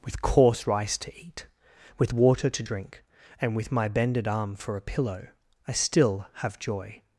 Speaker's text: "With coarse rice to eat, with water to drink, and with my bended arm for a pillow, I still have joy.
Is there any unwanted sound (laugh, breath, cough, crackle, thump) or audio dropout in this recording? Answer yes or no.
no